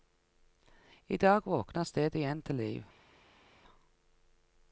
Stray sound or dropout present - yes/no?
no